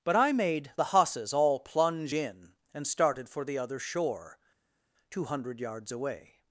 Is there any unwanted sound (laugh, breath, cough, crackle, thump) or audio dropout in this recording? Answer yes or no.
no